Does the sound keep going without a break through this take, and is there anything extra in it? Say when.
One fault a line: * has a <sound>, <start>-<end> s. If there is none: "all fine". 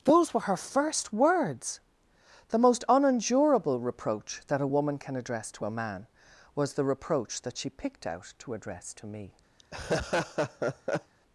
* has a laugh, 9.6-11.1 s